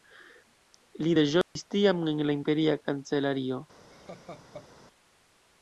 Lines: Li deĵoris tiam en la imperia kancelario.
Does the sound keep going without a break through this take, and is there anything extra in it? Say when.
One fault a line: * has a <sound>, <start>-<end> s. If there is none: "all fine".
* has a dropout, 1.4-1.6 s
* has a laugh, 3.9-4.7 s